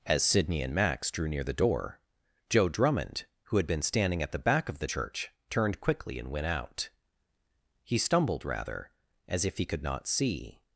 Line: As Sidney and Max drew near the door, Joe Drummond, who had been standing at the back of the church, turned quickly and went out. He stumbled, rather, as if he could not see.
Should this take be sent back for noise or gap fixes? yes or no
no